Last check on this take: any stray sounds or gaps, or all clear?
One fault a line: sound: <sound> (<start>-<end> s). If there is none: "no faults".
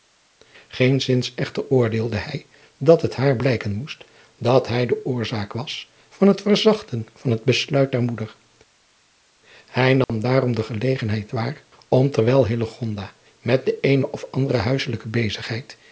sound: dropout (10.0-10.1 s)